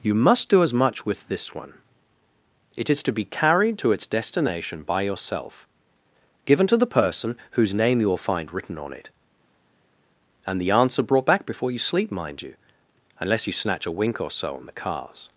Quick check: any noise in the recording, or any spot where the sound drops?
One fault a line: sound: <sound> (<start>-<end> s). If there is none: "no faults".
no faults